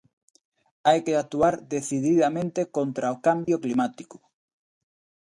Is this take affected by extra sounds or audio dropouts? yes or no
yes